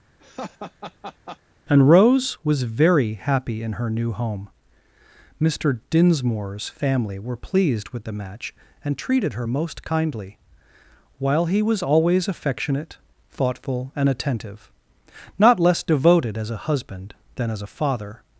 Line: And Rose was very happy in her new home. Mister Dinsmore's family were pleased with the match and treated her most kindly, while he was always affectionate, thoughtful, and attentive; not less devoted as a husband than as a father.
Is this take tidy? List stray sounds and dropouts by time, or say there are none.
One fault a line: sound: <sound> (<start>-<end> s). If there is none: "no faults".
sound: laugh (0.2-1.4 s)